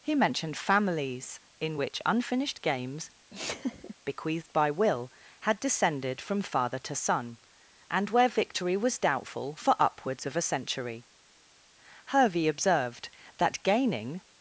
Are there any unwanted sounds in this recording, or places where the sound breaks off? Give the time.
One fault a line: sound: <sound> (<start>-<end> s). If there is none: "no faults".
sound: laugh (3.3-4.0 s)